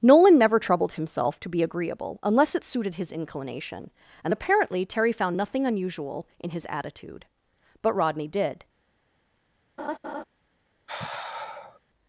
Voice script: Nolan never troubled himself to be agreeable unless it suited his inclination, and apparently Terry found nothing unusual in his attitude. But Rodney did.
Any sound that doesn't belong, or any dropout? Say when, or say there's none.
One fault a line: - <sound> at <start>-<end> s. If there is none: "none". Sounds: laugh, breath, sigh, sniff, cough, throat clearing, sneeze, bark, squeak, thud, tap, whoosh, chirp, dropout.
- laugh at 9.8-10.2 s
- sigh at 10.9-11.8 s